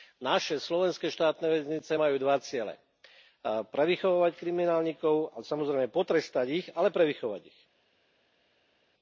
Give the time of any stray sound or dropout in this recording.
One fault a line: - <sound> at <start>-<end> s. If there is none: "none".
none